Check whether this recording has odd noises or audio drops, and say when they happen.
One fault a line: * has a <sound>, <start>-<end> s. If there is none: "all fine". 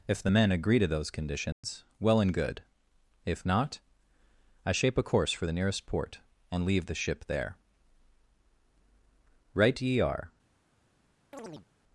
* has a dropout, 1.5-1.6 s
* has a chirp, 11.3-11.7 s